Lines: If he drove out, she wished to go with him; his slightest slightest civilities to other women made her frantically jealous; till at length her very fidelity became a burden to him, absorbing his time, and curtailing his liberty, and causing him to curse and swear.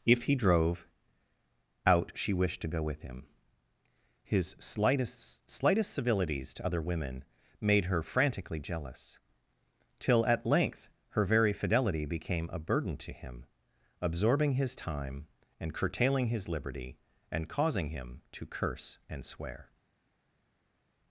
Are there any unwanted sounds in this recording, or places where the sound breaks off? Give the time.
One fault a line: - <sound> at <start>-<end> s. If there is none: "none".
none